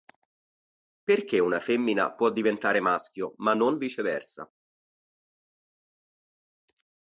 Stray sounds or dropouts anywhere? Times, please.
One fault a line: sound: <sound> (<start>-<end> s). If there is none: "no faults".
no faults